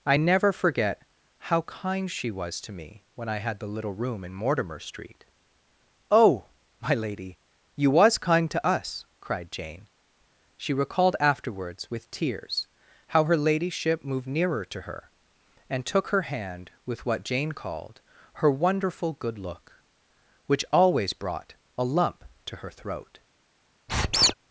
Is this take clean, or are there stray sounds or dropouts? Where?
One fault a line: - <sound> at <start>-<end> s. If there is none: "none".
- squeak at 23.9-24.3 s